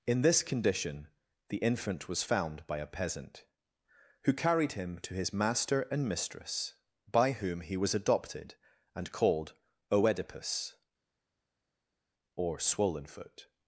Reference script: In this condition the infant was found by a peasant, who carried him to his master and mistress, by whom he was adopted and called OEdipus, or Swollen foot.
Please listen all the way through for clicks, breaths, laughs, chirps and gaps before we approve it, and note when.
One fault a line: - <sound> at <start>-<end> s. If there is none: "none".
none